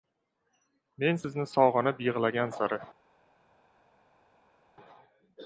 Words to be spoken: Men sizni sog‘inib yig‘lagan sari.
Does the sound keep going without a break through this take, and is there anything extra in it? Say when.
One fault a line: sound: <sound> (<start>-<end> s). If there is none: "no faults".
no faults